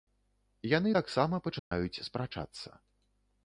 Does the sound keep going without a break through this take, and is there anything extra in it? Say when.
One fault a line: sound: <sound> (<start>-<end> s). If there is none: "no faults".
sound: dropout (1.6-1.7 s)